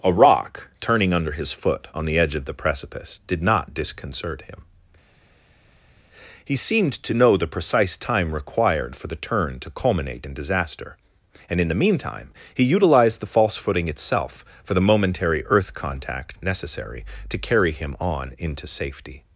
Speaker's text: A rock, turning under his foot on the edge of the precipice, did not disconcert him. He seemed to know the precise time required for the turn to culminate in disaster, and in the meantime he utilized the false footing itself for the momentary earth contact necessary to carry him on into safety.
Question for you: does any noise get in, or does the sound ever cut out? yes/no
no